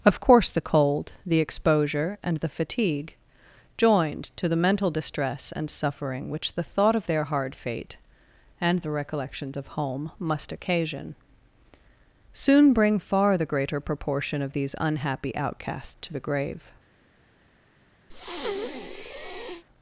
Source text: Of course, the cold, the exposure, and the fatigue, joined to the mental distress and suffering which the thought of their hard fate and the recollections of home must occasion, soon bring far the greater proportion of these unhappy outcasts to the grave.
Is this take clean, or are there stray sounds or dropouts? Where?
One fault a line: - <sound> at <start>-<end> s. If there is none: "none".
- breath at 18.1-19.6 s